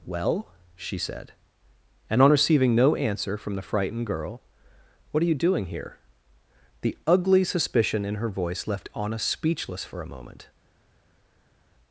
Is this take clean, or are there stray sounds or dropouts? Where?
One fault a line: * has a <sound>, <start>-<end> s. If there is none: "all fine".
all fine